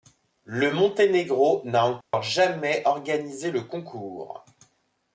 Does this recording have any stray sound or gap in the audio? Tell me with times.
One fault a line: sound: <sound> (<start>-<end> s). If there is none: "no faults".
sound: dropout (2.0-2.1 s)